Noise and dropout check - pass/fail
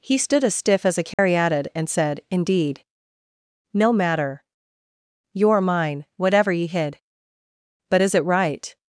fail